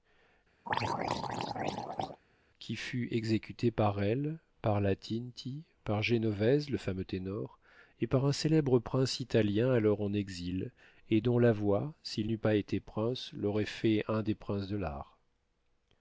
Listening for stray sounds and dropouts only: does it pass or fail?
fail